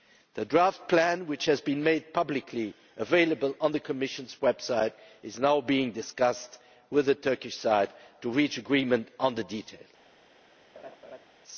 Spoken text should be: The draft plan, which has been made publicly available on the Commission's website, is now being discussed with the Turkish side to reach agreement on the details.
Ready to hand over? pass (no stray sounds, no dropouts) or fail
fail